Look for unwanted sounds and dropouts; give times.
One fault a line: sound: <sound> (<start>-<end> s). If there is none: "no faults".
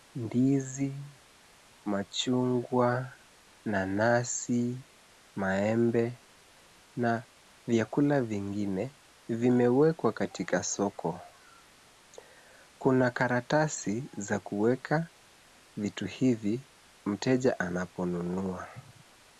no faults